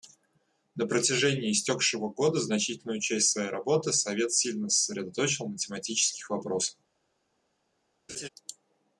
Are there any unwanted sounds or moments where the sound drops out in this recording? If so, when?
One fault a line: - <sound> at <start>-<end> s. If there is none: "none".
- laugh at 8.1-8.3 s